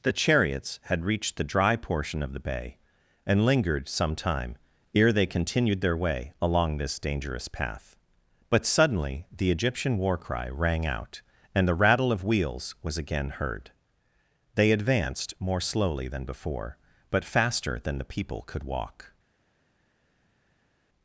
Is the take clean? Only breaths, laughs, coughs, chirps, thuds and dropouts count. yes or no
yes